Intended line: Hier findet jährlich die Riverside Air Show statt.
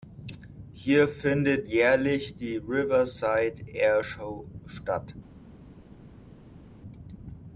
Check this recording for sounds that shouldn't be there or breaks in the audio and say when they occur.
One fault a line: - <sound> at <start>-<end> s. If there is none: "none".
none